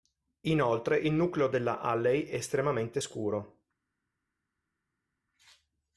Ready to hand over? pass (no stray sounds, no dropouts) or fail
pass